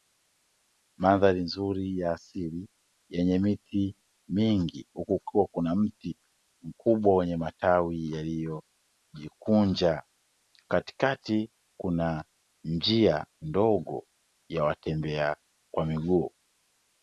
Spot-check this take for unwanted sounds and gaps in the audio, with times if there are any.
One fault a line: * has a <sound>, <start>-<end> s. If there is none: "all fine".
all fine